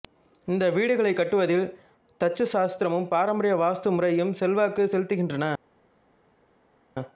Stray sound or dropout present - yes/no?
no